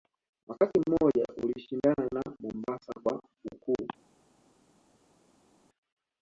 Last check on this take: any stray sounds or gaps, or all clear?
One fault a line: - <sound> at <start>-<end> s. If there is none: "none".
none